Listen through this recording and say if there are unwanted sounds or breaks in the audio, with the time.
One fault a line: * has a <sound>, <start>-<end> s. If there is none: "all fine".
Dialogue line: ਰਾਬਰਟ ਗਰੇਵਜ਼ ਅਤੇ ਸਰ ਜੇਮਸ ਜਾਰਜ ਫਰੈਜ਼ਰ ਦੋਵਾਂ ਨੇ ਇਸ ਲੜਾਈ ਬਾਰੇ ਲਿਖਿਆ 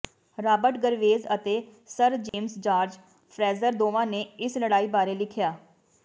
* has a dropout, 2.3-2.3 s